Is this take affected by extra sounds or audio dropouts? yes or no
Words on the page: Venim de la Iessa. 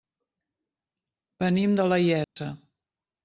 yes